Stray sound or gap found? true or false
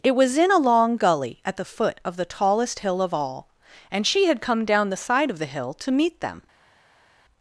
false